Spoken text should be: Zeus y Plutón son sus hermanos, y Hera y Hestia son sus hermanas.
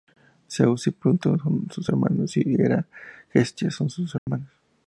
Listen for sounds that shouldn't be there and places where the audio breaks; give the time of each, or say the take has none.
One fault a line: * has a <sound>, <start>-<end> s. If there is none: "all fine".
* has a dropout, 4.2-4.3 s